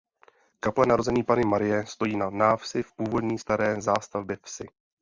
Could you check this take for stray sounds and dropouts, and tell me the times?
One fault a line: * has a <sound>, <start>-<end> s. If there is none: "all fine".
all fine